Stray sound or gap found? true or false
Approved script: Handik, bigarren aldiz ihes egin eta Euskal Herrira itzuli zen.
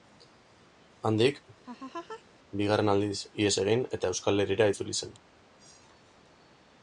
true